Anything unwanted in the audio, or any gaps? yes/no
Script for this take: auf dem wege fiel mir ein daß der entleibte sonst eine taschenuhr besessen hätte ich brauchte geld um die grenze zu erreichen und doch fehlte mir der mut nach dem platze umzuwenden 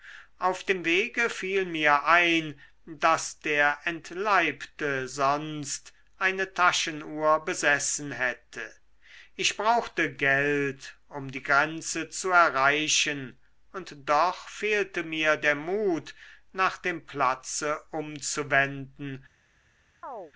yes